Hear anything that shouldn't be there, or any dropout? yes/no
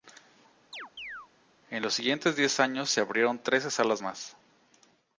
yes